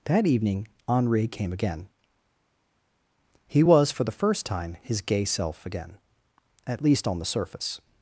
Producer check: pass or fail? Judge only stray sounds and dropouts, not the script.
pass